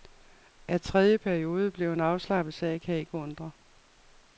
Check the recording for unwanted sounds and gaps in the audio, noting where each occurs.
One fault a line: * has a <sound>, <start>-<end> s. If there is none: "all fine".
all fine